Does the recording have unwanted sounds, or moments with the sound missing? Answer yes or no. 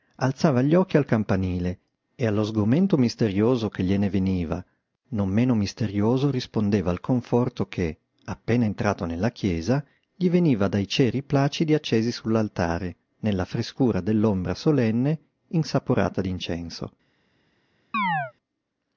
yes